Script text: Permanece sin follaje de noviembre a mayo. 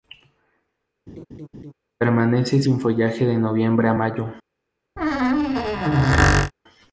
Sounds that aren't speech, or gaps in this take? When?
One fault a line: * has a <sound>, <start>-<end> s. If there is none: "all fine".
* has a laugh, 1.1-1.7 s
* has a squeak, 5.0-6.5 s